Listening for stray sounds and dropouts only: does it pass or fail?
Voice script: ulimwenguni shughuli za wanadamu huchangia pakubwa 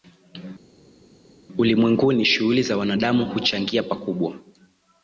pass